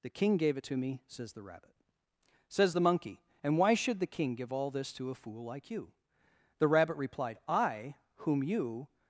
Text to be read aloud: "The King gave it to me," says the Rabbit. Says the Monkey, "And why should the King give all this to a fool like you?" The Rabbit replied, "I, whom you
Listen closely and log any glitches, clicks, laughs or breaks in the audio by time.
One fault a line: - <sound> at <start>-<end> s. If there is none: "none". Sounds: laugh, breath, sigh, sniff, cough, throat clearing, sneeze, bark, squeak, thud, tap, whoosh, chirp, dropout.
none